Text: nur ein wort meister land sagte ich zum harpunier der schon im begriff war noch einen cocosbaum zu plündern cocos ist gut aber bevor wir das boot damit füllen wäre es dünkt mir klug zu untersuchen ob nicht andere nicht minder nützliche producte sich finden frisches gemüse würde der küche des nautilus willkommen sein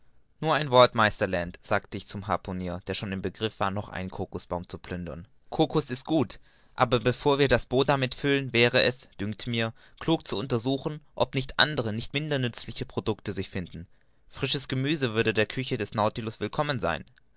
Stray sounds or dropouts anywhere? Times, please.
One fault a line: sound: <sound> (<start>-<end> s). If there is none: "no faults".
no faults